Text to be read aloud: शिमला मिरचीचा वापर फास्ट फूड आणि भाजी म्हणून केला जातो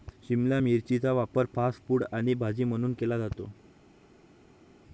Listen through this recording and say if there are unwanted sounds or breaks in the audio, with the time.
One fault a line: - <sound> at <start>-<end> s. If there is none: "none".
none